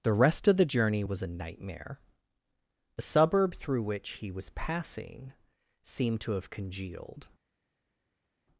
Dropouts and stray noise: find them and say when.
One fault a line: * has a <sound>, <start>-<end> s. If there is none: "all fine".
all fine